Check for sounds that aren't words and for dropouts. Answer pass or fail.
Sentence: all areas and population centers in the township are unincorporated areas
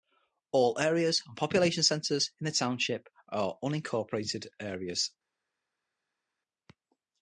pass